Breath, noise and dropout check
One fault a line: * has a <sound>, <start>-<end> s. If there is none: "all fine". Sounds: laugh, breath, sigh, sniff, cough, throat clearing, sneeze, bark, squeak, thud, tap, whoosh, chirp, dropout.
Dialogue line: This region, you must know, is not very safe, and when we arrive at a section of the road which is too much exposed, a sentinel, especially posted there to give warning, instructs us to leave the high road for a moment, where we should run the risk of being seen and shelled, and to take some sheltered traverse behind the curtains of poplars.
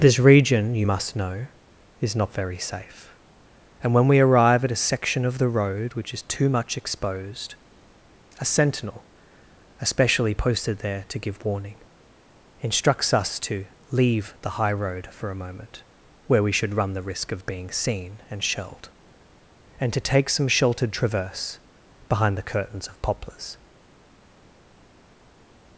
all fine